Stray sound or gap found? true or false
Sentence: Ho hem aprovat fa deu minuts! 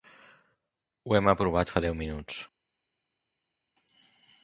false